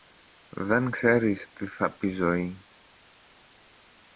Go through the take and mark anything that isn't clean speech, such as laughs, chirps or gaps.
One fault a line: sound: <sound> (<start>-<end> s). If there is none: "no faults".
no faults